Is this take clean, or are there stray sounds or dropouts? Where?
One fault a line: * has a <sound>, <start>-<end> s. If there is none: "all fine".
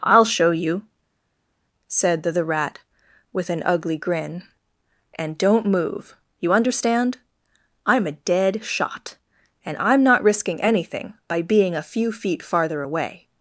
all fine